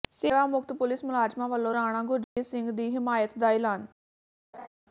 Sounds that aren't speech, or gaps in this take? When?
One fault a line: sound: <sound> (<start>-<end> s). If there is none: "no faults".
sound: dropout (2.2-2.4 s)
sound: laugh (4.5-4.7 s)